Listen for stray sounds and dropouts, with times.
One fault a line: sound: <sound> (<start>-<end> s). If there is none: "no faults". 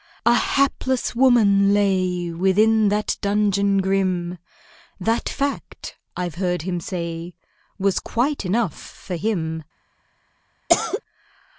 sound: cough (10.7-11.0 s)